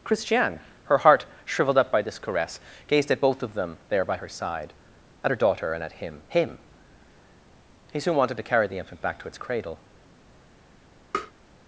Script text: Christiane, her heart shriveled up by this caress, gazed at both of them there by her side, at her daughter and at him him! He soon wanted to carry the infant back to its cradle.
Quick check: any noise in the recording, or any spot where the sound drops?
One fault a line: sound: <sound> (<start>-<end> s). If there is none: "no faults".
sound: tap (11.1-11.3 s)